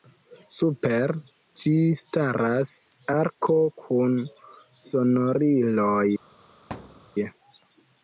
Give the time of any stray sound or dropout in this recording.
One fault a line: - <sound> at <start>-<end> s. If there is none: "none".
- thud at 6.7-7.1 s